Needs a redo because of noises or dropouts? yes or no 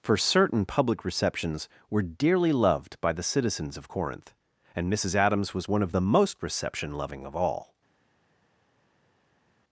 no